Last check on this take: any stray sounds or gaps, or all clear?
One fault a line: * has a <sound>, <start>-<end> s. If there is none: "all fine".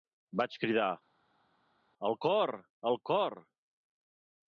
all fine